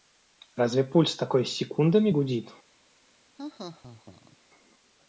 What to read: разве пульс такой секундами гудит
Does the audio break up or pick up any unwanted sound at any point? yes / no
yes